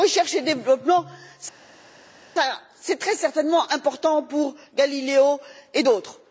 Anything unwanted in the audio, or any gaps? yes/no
no